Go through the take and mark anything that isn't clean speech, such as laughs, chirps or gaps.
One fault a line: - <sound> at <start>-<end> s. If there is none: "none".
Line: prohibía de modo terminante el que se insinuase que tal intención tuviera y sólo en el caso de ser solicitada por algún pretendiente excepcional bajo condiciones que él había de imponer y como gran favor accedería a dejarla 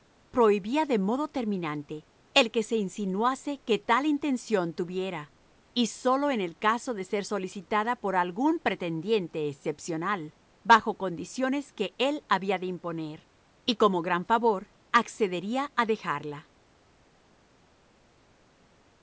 none